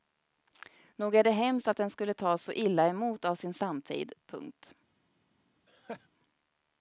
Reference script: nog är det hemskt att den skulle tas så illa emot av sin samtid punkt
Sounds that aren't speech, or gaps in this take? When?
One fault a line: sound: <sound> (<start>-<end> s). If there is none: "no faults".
sound: laugh (5.7-6.1 s)